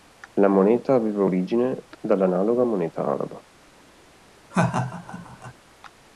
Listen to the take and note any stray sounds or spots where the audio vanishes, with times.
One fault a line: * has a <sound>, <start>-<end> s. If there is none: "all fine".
* has a laugh, 4.5-5.5 s